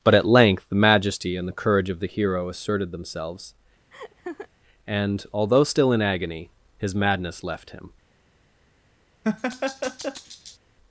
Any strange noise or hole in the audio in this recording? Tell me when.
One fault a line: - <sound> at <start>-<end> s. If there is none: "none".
- laugh at 3.9-4.5 s
- laugh at 9.2-10.6 s